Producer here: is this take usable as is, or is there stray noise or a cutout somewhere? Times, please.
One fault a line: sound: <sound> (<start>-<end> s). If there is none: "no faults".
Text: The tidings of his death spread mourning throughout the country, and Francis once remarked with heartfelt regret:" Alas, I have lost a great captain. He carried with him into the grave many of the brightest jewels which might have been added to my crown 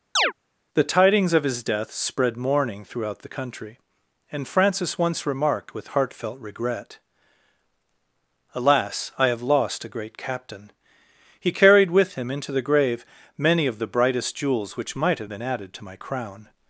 sound: chirp (0.2-0.3 s)